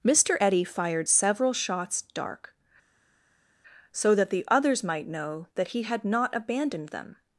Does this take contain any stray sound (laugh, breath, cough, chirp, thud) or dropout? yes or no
no